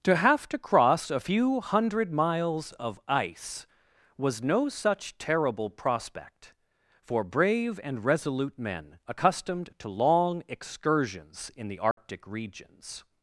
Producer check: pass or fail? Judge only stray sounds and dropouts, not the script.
fail